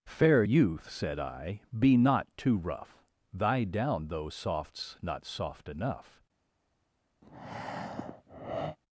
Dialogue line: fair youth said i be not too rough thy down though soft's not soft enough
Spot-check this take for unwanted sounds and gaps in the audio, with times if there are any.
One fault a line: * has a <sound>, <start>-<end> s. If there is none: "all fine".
* has a breath, 7.2-8.8 s